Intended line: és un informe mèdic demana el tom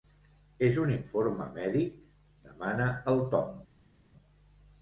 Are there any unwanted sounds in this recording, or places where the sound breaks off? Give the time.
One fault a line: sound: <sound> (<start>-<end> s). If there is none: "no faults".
no faults